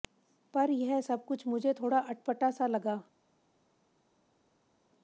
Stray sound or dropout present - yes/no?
no